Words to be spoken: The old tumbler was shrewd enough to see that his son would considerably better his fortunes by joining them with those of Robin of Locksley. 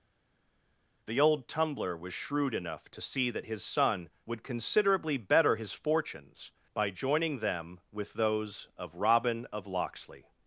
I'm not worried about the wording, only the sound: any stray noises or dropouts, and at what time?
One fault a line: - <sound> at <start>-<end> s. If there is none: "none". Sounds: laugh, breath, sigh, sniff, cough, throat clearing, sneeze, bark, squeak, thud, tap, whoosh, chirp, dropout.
none